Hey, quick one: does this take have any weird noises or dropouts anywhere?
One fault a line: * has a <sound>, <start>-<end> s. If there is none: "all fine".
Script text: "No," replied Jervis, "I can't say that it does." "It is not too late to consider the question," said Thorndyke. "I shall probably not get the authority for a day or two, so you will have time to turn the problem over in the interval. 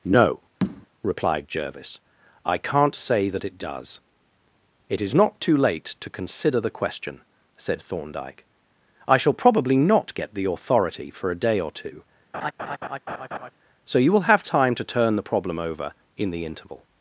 * has a tap, 0.6-0.9 s
* has a laugh, 12.3-13.5 s